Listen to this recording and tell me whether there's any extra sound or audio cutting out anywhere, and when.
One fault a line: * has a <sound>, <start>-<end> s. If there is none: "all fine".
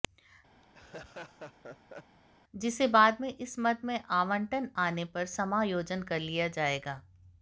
* has a laugh, 0.6-2.2 s